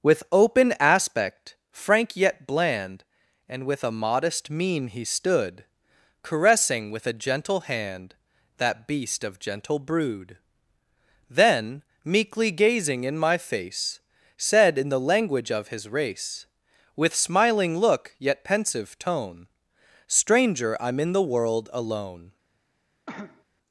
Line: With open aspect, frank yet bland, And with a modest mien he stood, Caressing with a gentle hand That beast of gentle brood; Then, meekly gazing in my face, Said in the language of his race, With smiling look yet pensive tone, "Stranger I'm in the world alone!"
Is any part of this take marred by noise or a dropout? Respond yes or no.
yes